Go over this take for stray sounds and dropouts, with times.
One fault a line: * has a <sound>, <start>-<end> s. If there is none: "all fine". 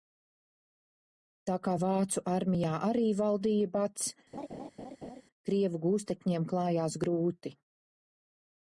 * has a laugh, 4.3-5.2 s